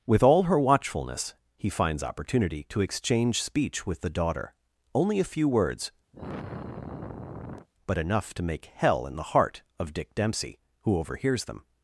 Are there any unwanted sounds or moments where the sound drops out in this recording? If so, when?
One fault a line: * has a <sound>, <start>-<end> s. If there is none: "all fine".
* has a sigh, 6.1-7.7 s